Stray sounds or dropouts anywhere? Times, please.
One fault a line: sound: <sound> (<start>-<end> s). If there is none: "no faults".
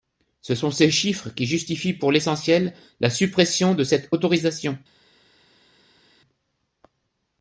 no faults